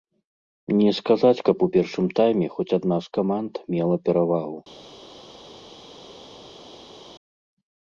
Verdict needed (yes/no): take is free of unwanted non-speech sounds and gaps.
yes